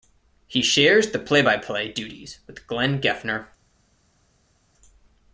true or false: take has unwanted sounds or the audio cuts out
false